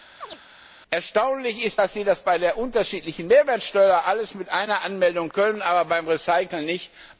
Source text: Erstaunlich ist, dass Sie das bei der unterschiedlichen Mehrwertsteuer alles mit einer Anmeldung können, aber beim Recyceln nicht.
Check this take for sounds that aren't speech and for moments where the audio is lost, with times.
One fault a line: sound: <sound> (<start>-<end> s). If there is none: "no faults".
sound: chirp (0.2-0.4 s)